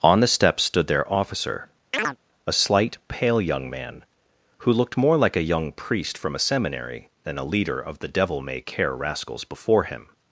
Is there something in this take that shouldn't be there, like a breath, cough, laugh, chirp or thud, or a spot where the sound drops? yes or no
yes